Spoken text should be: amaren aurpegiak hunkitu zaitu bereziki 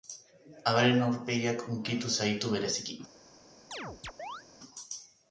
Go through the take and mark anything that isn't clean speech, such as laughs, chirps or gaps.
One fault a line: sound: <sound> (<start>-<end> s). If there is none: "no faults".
sound: chirp (3.7-4.4 s)